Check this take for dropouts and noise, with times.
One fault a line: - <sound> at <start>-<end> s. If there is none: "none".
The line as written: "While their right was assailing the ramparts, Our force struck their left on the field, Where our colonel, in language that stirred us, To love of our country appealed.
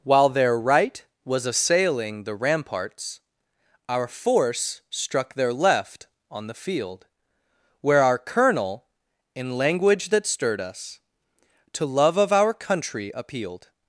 none